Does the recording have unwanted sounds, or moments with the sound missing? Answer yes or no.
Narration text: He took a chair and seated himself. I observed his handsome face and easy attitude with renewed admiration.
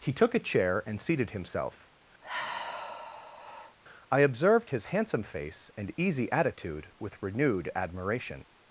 yes